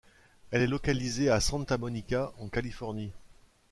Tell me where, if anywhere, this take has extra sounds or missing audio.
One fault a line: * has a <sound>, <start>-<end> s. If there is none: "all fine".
all fine